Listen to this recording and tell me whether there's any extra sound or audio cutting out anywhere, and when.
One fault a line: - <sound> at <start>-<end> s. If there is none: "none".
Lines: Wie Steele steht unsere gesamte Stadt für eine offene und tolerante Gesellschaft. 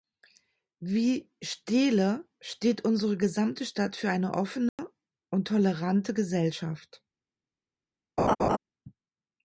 - dropout at 4.7-4.8 s
- laugh at 8.2-8.6 s